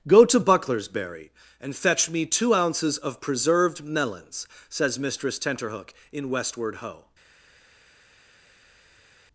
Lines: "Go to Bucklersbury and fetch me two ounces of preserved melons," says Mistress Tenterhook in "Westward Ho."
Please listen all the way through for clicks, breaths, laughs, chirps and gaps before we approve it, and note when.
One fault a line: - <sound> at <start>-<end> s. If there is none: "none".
none